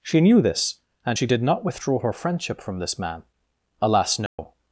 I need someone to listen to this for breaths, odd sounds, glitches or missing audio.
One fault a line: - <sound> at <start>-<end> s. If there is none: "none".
- dropout at 4.3-4.4 s